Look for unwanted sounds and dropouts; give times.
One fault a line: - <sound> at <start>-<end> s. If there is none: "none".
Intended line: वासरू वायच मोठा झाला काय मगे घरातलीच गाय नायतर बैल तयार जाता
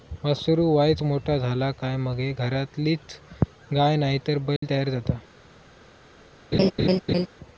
- dropout at 4.6-4.6 s
- laugh at 6.5-7.3 s